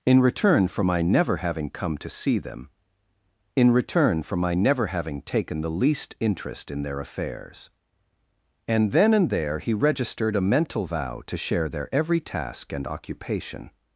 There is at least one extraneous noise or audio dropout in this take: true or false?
false